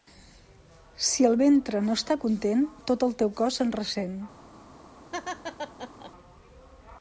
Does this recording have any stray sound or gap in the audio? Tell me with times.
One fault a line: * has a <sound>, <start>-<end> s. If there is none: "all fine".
* has a laugh, 5.1-6.1 s